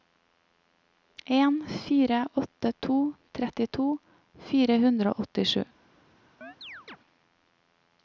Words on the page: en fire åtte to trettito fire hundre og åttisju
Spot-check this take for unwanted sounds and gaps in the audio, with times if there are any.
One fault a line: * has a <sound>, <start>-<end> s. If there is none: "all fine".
* has a chirp, 6.4-7.0 s